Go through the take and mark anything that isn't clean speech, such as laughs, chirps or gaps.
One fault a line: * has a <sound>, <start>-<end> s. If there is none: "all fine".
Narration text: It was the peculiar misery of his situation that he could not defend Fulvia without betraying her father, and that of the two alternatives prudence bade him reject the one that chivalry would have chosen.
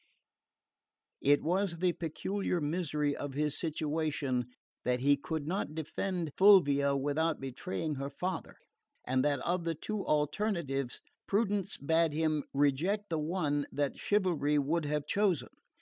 all fine